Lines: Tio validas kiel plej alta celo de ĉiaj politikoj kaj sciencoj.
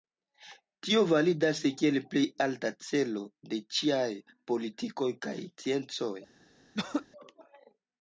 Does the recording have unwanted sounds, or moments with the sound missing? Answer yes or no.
yes